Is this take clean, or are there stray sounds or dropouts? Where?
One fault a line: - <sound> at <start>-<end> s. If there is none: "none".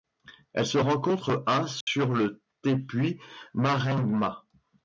- dropout at 1.8-1.9 s